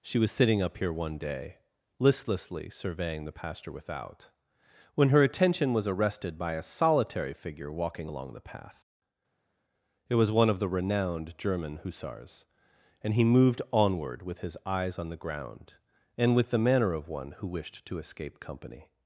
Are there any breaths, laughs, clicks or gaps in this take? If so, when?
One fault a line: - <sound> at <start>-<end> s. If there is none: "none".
none